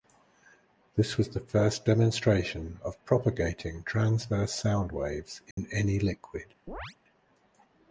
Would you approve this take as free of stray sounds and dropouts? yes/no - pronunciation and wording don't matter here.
no